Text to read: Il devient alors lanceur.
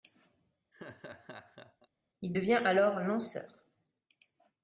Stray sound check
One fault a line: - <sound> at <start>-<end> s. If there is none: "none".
- laugh at 0.7-1.9 s